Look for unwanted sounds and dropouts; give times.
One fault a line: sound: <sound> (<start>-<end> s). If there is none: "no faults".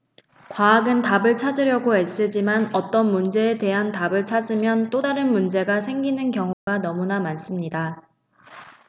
sound: dropout (6.5-6.7 s)